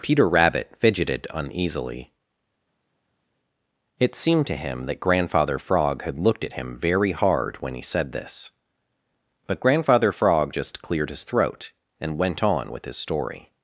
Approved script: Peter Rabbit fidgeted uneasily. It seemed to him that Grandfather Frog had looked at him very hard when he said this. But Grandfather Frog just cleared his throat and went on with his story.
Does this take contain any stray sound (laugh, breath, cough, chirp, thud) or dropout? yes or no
no